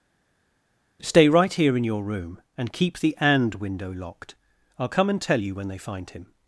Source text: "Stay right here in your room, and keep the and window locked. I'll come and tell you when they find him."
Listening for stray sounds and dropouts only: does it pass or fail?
pass